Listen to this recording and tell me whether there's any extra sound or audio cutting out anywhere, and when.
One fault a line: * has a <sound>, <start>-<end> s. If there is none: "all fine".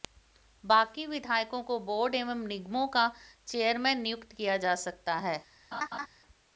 * has a laugh, 5.7-6.1 s